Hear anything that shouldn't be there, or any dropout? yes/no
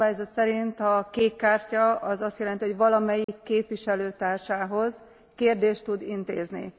yes